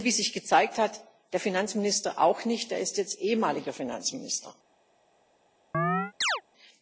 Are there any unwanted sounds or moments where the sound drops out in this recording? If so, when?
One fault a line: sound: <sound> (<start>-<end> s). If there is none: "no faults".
sound: chirp (5.7-6.4 s)